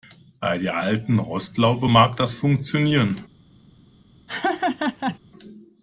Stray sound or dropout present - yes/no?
yes